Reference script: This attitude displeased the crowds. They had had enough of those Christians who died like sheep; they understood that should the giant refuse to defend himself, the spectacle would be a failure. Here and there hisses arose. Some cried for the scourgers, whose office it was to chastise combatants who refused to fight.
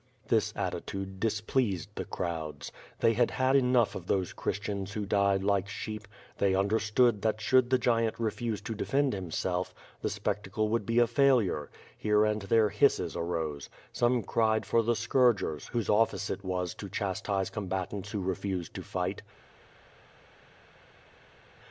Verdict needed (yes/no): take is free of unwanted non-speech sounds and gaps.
yes